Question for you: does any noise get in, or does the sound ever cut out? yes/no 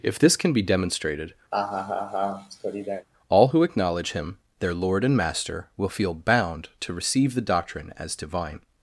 yes